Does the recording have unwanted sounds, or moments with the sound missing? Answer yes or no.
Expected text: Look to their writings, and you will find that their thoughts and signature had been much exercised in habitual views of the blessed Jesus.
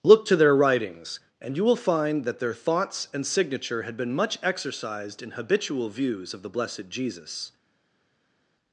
no